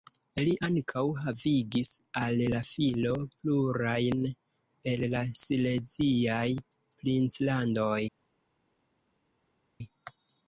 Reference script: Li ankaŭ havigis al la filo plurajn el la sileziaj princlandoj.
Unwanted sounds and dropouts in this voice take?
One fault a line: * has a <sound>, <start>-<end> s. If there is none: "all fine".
all fine